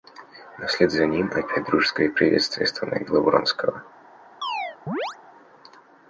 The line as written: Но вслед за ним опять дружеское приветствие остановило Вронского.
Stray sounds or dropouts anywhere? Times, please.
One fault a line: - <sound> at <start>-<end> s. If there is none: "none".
- chirp at 4.4-5.2 s